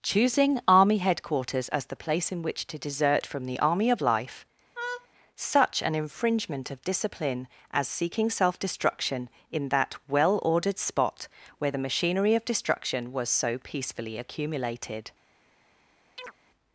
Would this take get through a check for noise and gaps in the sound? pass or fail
fail